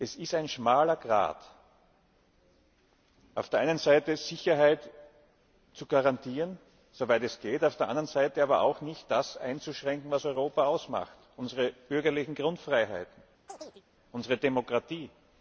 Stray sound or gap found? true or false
true